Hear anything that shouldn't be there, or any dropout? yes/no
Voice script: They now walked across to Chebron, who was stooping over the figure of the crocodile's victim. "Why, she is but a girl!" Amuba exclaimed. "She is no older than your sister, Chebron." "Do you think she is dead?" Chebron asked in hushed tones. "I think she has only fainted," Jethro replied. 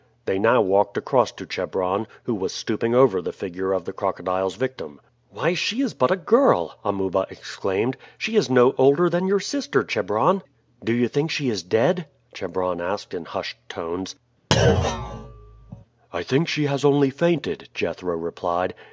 yes